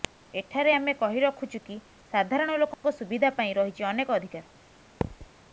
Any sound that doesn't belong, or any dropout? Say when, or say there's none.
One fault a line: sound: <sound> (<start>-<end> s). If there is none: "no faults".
sound: dropout (2.7-2.8 s)
sound: thud (5.0-5.3 s)